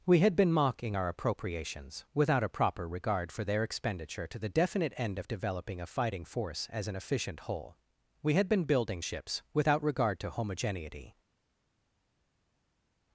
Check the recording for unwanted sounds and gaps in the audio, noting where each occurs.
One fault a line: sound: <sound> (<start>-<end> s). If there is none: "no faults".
no faults